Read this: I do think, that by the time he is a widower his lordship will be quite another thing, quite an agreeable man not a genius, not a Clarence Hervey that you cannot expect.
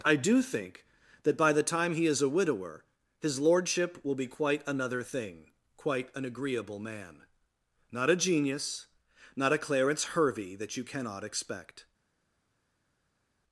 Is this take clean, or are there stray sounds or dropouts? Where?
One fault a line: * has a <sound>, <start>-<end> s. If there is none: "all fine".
all fine